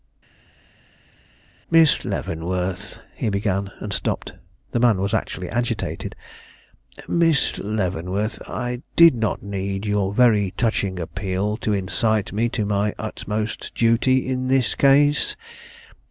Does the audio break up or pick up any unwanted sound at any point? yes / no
no